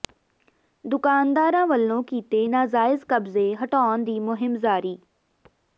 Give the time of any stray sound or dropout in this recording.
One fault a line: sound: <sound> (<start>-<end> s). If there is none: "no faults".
no faults